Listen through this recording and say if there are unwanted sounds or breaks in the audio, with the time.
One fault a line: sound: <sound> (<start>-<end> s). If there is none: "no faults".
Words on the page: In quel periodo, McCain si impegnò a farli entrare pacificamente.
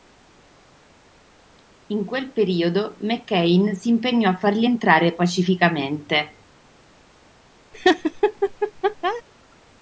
sound: laugh (7.7-9.2 s)